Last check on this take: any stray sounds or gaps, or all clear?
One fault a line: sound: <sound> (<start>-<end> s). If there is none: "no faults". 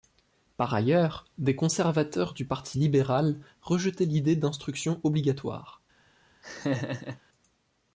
sound: laugh (6.4-7.2 s)